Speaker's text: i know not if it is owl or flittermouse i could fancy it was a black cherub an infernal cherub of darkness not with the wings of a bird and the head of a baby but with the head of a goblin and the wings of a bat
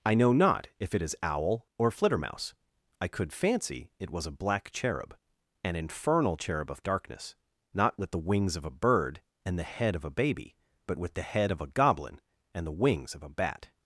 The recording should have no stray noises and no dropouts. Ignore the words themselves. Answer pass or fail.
pass